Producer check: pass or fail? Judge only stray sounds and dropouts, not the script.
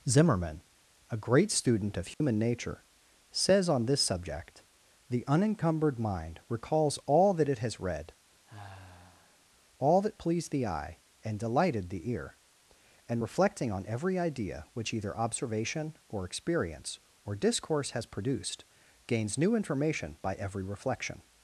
fail